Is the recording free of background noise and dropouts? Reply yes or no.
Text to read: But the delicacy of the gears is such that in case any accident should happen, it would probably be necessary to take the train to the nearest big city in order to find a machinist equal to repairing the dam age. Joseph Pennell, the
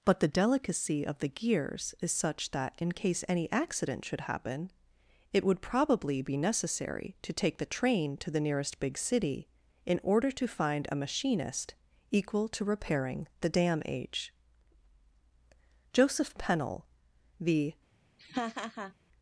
no